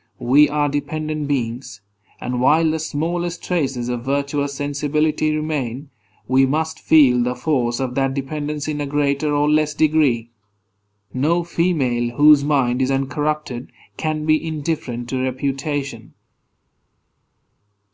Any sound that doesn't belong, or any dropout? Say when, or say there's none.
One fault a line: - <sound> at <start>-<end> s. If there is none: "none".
none